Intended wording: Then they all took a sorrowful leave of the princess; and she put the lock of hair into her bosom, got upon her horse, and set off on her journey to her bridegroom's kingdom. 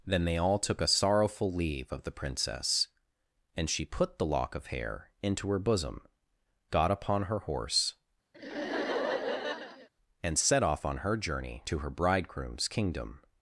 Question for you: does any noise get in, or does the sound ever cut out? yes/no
yes